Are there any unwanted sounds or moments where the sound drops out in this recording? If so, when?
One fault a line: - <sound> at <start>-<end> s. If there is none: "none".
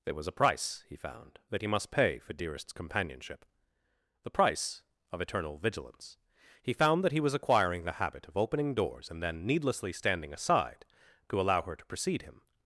none